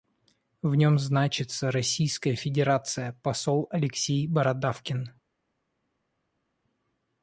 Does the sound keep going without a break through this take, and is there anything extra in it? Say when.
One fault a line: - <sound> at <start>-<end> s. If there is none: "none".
none